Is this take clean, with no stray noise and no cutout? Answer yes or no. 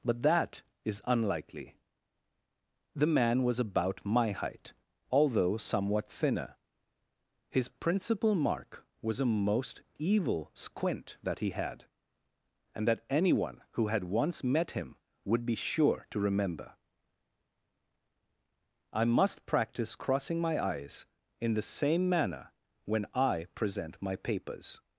yes